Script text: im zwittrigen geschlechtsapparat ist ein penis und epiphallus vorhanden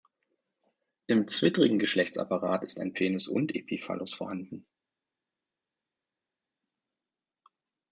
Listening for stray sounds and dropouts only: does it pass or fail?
pass